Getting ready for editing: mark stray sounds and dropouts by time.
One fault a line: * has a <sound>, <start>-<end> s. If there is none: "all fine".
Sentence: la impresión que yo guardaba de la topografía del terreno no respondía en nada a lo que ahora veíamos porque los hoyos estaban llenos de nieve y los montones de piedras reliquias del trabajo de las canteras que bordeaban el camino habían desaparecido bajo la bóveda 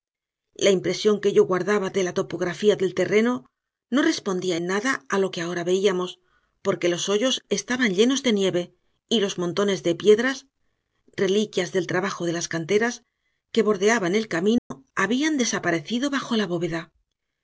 * has a dropout, 14.6-14.7 s